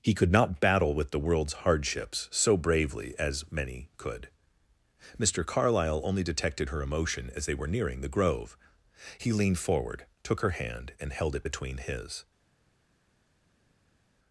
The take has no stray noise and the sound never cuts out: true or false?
true